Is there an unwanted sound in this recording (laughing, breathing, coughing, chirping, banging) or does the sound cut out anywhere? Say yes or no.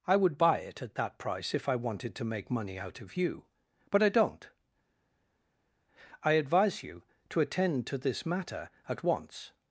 no